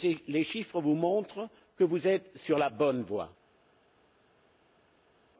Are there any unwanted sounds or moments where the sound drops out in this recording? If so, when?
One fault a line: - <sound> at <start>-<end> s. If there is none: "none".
none